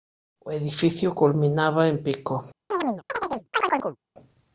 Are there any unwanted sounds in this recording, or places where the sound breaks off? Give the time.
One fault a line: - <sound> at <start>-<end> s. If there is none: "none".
- chirp at 2.7-4.0 s